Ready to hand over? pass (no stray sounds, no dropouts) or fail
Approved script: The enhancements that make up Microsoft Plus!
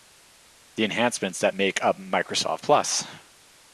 pass